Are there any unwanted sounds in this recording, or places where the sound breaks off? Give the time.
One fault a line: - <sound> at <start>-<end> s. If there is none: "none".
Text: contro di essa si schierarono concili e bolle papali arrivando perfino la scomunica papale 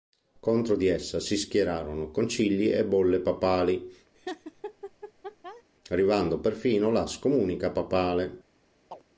- laugh at 4.1-5.6 s
- chirp at 8.9-9.0 s